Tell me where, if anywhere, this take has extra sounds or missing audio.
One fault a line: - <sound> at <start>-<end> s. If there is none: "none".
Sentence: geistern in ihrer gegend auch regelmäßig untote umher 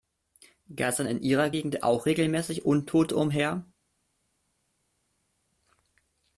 none